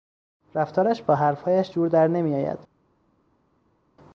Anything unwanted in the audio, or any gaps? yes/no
no